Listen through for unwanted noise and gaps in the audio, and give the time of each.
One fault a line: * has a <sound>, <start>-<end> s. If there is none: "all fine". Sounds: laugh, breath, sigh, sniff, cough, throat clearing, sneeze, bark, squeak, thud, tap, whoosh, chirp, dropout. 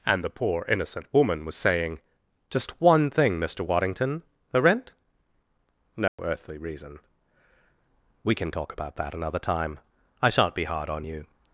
* has a dropout, 6.1-6.2 s